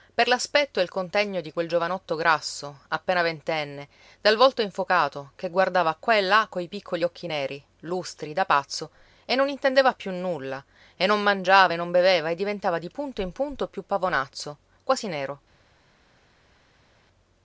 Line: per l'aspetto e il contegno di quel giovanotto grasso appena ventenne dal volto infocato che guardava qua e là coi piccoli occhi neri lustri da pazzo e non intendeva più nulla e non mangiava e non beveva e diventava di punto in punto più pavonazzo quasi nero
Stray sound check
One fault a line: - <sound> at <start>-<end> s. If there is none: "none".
none